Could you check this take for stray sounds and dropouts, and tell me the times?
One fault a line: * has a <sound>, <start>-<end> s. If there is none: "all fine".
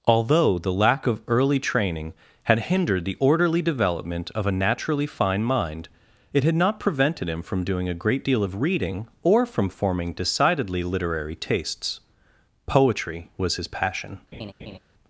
* has a laugh, 14.3-14.8 s